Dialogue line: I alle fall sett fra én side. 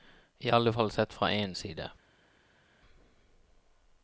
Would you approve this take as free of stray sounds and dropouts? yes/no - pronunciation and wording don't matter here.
yes